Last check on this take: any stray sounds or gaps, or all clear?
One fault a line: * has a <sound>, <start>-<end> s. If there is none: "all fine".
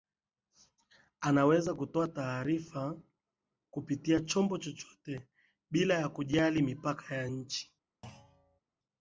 * has a thud, 8.0-8.6 s